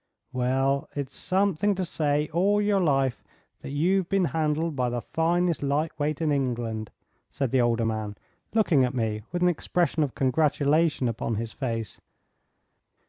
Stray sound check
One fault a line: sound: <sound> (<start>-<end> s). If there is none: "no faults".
no faults